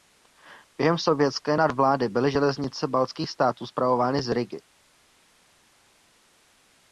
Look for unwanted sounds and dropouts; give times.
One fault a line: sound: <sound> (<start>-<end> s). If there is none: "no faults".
no faults